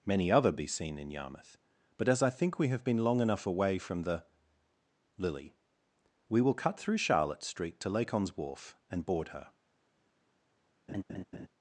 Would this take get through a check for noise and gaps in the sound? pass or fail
fail